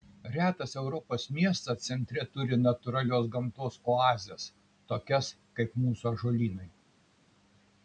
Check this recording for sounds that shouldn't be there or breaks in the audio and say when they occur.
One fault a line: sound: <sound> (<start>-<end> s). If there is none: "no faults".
no faults